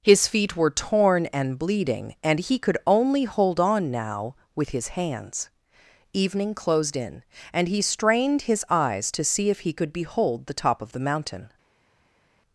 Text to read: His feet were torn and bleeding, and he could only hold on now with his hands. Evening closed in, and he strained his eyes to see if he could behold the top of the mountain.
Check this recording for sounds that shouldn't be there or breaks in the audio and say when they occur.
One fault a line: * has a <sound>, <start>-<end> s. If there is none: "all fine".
all fine